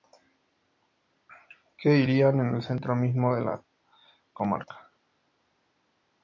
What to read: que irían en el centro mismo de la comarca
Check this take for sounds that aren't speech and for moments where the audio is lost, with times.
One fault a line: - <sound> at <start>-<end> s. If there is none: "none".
none